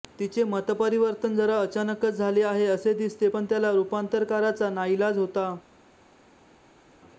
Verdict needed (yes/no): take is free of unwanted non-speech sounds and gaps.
yes